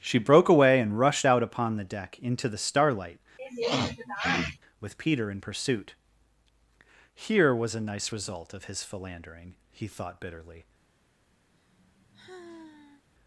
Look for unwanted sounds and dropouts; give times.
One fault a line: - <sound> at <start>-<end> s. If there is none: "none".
- sniff at 3.4-4.6 s
- sigh at 11.5-13.0 s